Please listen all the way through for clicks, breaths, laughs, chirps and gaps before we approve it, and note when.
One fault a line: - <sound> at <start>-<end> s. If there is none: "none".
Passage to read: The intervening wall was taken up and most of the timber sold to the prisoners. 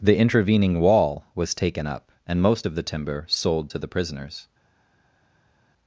none